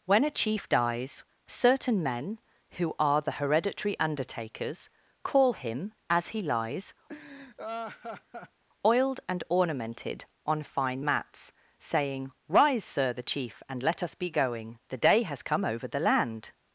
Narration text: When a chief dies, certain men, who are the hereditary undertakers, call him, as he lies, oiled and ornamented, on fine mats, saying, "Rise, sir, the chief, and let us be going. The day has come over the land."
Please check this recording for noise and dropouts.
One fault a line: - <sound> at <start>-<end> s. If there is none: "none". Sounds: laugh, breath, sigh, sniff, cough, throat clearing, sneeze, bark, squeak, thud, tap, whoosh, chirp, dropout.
- laugh at 7.1-8.6 s